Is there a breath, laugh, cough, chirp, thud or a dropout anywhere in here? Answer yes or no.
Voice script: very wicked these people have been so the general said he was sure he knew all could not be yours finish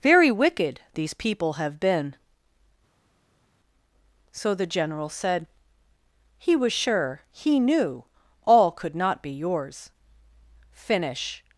no